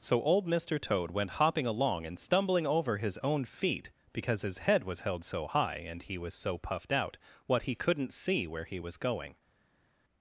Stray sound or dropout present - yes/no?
no